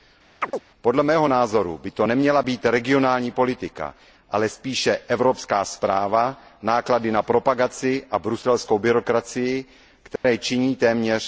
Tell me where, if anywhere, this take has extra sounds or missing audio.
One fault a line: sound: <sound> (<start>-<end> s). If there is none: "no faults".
sound: chirp (0.4-0.6 s)
sound: dropout (10.2-10.2 s)